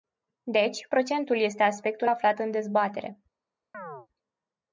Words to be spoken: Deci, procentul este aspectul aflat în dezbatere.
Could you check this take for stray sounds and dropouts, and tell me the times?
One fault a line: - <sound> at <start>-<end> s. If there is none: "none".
- chirp at 3.7-4.1 s